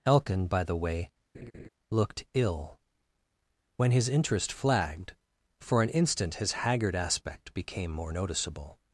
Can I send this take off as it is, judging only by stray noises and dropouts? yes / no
no